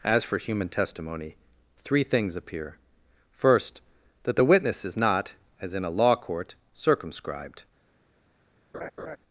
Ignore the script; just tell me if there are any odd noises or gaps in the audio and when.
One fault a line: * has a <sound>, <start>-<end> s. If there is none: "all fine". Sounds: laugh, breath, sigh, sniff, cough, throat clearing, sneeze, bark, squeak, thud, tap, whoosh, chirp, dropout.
* has a laugh, 8.7-9.2 s